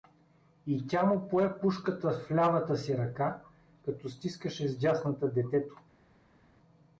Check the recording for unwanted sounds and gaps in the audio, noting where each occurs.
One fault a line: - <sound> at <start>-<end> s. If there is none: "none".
none